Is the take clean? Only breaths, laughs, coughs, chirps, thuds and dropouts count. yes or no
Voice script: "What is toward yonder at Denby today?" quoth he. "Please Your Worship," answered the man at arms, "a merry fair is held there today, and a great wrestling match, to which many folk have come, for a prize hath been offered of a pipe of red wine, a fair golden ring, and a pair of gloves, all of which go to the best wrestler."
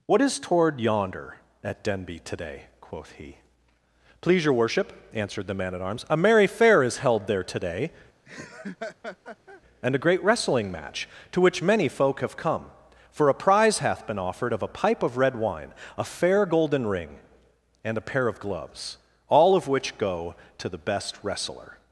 no